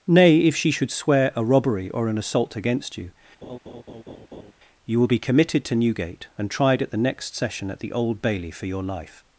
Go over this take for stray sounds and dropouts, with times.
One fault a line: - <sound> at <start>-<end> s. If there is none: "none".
- laugh at 3.4-4.5 s